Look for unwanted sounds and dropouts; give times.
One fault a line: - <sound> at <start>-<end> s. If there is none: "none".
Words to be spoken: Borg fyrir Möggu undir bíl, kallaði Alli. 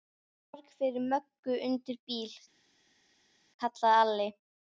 none